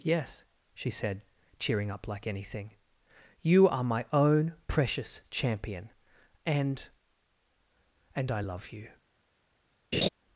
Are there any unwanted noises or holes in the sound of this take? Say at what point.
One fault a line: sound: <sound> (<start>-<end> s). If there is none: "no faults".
sound: laugh (9.9-10.1 s)